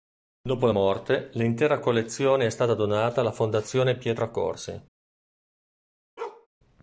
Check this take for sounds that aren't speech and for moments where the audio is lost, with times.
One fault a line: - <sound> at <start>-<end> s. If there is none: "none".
- bark at 6.2-6.5 s